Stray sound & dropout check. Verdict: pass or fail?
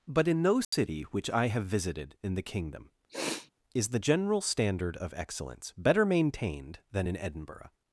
fail